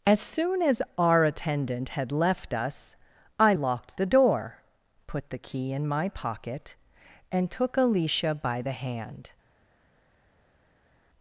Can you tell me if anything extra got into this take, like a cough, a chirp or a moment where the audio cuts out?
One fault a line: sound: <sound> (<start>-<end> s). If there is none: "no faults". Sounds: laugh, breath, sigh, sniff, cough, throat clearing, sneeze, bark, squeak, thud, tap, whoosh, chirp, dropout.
no faults